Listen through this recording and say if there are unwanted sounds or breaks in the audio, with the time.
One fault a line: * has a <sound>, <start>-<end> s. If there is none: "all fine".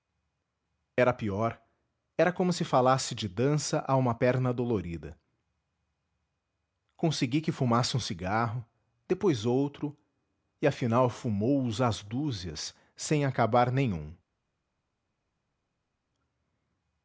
all fine